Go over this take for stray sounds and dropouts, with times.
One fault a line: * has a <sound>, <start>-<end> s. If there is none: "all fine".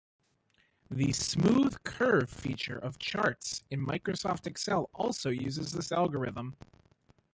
all fine